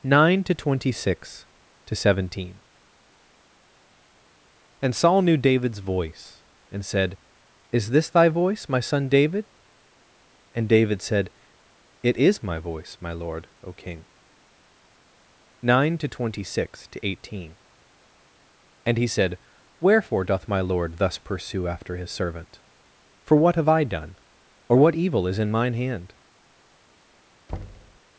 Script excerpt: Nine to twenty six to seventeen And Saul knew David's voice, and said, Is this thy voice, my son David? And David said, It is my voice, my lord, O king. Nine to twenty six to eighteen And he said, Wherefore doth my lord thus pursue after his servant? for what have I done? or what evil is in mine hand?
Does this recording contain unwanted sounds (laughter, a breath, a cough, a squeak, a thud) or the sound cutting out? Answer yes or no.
yes